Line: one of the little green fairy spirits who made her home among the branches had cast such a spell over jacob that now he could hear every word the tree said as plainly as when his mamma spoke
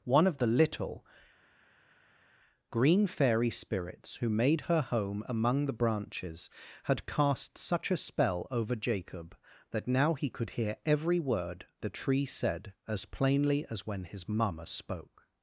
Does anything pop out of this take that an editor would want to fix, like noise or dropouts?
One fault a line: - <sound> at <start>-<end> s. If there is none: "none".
none